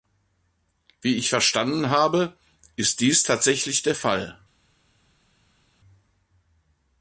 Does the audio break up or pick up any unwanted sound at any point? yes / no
no